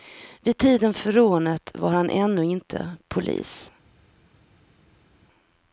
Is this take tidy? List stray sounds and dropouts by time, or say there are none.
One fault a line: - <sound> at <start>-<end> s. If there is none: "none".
none